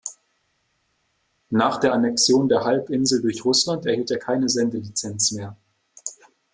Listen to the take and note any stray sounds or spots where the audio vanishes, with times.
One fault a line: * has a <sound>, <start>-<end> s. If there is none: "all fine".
all fine